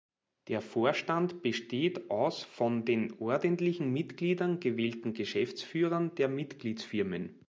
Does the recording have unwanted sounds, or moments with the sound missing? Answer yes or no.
no